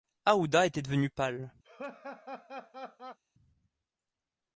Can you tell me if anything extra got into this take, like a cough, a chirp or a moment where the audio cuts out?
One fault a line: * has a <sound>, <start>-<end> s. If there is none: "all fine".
* has a laugh, 1.6-3.2 s